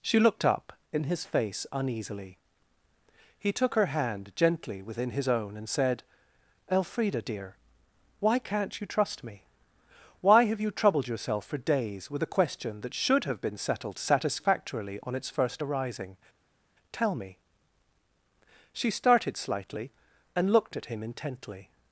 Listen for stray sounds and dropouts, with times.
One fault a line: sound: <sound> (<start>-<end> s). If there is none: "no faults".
no faults